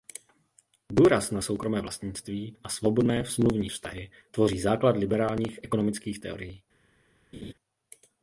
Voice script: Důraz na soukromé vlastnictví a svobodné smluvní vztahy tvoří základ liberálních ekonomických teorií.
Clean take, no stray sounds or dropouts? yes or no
no